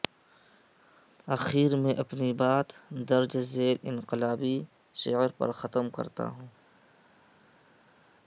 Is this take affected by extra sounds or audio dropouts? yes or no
no